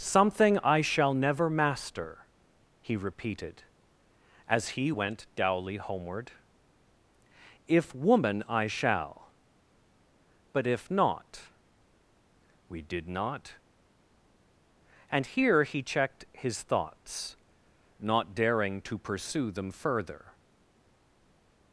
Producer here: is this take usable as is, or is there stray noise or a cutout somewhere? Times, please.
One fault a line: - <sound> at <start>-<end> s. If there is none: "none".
none